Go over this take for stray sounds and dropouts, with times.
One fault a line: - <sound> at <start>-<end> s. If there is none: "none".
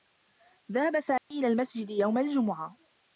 - dropout at 1.2-1.3 s